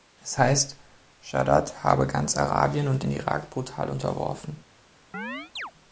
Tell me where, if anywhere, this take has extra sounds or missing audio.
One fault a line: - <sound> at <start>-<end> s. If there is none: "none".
- chirp at 5.1-5.7 s